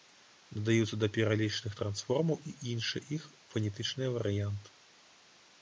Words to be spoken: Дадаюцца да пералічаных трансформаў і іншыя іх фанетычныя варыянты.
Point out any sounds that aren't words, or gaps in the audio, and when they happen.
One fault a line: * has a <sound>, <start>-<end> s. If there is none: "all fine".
all fine